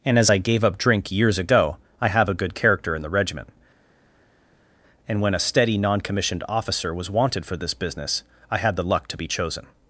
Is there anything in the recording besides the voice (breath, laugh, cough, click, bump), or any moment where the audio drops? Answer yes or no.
no